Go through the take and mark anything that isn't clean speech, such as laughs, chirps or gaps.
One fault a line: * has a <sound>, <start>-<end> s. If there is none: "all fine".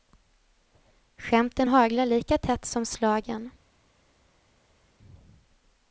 all fine